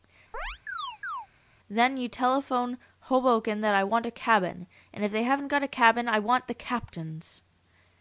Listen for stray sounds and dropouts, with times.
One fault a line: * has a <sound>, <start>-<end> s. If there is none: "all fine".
* has a chirp, 0.3-1.3 s